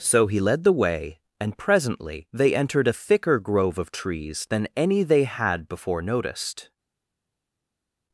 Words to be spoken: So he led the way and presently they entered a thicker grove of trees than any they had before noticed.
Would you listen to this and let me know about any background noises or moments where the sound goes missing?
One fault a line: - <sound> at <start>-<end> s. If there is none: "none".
none